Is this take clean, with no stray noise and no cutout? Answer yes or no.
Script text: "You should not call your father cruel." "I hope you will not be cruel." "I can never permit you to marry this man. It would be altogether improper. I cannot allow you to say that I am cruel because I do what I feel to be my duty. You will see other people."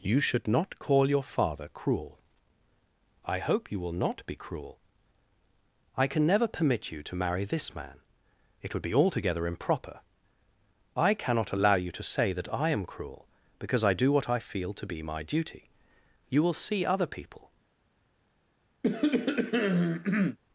no